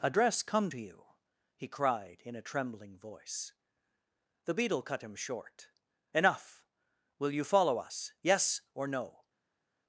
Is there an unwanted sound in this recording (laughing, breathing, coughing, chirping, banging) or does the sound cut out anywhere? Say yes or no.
no